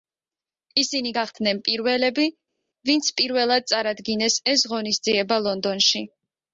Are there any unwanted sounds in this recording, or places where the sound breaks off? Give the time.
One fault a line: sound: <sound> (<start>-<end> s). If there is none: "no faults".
no faults